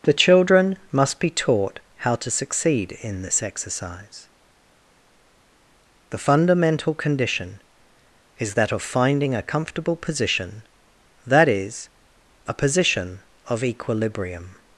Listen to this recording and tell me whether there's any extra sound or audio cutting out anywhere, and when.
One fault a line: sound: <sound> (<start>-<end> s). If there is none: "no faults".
no faults